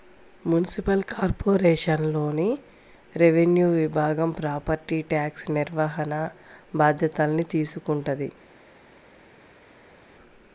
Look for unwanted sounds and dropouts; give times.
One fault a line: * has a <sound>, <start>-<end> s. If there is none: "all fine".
all fine